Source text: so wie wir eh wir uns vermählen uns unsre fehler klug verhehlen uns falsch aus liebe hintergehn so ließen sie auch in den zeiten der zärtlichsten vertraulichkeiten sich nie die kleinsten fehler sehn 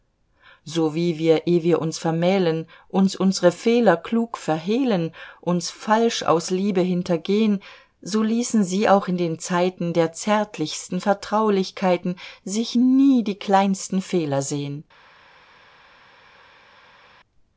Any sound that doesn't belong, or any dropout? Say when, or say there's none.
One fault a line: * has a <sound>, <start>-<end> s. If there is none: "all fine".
all fine